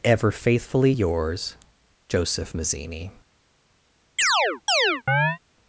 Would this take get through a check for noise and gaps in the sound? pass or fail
fail